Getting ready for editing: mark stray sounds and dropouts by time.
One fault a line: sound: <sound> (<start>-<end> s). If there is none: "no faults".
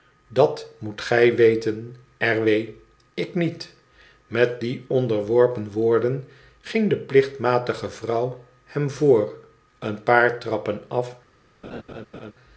sound: laugh (11.6-12.3 s)